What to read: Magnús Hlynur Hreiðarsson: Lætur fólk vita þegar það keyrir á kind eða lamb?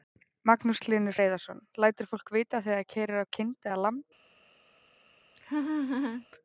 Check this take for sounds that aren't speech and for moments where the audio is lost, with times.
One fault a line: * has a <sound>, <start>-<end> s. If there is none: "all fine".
* has a laugh, 5.4-6.3 s